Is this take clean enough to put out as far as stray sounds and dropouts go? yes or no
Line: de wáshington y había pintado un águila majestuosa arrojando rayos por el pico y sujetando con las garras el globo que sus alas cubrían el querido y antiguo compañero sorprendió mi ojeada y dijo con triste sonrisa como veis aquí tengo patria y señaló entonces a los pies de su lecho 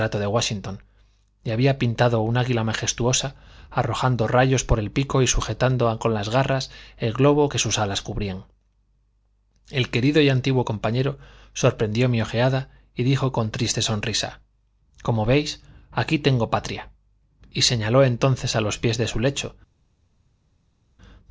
yes